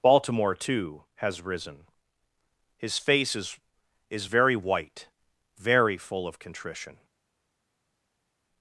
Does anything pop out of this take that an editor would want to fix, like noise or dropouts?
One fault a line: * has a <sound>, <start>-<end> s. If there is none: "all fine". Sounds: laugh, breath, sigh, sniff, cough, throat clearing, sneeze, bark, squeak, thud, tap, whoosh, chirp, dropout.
all fine